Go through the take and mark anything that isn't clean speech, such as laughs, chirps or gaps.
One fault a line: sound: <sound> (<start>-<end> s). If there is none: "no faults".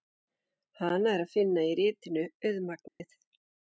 sound: dropout (2.9-3.0 s)